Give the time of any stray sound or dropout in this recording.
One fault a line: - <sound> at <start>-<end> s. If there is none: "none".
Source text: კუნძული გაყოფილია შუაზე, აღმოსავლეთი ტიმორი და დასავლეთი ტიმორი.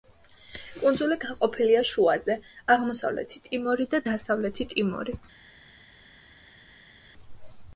none